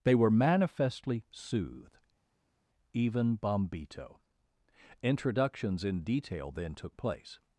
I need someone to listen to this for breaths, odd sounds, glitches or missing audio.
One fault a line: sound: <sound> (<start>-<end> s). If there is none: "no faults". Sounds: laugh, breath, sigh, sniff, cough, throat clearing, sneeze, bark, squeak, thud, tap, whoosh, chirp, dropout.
no faults